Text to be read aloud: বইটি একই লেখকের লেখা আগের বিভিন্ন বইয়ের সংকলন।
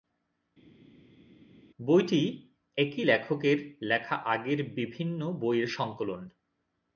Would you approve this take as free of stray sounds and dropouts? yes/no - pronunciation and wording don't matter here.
yes